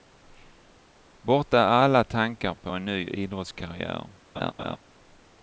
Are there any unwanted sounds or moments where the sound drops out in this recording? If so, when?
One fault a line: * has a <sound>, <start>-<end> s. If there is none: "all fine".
* has a laugh, 4.4-4.8 s